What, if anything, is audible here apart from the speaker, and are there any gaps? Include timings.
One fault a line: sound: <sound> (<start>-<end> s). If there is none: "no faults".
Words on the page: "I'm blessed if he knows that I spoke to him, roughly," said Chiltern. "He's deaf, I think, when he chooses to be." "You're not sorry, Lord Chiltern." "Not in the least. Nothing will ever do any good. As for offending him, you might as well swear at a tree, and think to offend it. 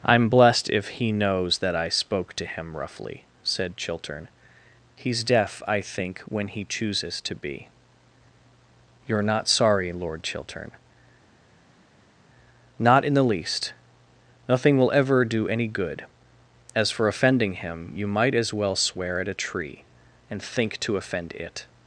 no faults